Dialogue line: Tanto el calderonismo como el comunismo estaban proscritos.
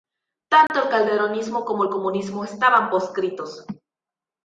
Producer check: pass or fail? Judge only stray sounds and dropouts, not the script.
fail